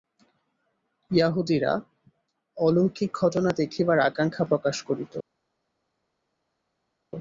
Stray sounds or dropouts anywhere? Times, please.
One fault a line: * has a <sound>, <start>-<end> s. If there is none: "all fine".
all fine